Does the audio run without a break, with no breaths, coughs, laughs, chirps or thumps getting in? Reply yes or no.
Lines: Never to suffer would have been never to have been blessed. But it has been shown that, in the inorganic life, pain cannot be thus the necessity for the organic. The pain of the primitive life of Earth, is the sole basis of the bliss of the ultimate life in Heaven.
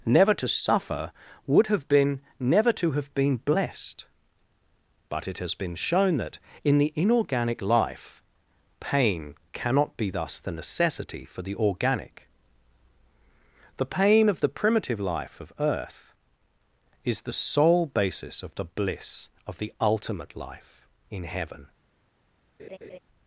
no